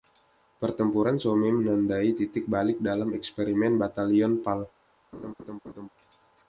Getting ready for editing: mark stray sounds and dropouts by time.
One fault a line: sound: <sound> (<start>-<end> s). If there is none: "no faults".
sound: laugh (5.1-5.9 s)